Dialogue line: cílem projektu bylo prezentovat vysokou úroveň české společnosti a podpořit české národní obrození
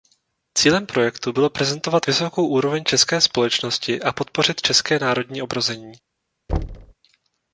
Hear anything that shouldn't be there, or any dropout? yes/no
yes